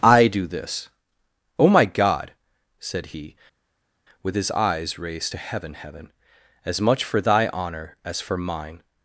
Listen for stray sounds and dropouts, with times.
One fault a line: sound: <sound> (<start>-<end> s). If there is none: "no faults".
no faults